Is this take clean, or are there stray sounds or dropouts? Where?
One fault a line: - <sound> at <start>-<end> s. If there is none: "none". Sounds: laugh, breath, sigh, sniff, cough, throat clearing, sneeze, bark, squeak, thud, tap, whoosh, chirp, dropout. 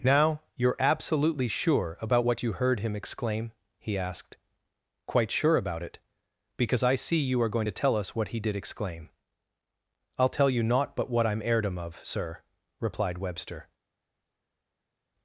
none